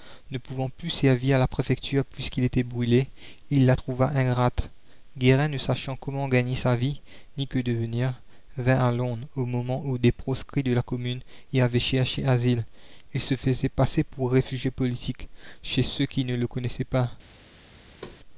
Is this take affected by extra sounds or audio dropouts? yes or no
yes